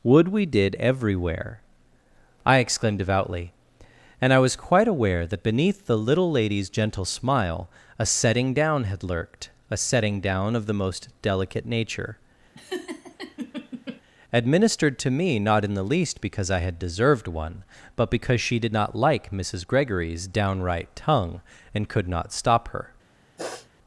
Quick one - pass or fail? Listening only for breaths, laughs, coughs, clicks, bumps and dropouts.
fail